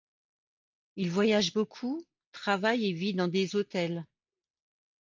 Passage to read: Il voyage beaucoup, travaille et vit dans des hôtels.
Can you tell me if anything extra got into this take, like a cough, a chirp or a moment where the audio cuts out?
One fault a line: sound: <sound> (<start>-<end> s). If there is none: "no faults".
no faults